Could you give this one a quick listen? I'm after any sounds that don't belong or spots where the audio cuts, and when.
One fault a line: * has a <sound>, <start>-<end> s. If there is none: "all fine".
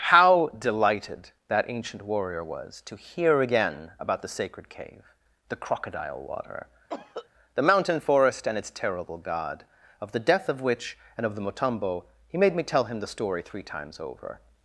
* has a cough, 6.9-7.3 s